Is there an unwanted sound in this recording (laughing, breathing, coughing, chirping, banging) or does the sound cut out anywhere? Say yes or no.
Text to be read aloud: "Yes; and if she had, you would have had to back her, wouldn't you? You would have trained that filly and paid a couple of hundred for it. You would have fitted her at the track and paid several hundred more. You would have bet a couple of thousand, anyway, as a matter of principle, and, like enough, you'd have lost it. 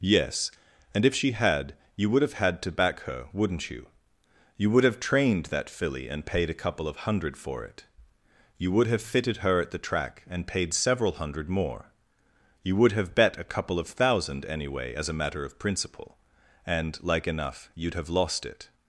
no